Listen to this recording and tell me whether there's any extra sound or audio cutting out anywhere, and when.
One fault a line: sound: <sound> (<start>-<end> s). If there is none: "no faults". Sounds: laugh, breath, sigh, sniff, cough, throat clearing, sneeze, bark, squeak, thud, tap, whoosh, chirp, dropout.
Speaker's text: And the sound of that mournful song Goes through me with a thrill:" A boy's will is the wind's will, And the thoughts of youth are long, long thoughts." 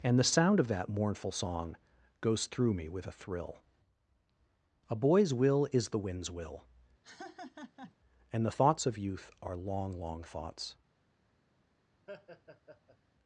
sound: laugh (7.0-7.9 s)
sound: laugh (12.1-13.0 s)